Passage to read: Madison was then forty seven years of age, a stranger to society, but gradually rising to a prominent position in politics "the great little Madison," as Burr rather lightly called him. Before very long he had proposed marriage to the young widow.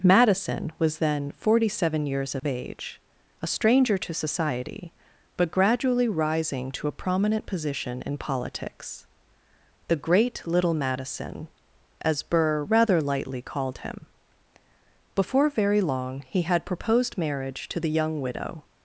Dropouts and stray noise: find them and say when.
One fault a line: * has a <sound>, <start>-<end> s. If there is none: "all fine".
* has a dropout, 2.4-2.4 s